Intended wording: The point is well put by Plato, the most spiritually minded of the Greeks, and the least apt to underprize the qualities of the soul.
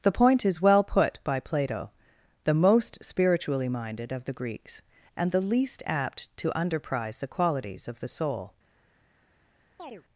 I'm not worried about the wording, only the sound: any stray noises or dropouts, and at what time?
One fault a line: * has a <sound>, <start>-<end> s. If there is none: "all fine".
* has a chirp, 9.8-10.0 s